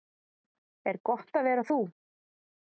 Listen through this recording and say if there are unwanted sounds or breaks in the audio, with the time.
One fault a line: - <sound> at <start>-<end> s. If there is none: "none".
none